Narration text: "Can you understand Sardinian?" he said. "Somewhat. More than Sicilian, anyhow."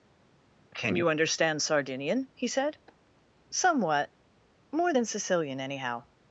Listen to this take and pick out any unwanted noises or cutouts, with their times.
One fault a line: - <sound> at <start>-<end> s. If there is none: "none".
none